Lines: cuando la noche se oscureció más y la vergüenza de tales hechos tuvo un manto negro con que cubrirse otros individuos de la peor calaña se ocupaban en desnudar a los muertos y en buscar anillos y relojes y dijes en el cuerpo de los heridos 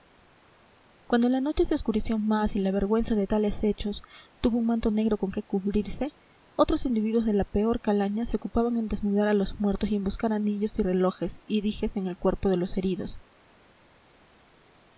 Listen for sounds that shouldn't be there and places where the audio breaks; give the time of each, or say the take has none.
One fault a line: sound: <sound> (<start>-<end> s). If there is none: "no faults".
no faults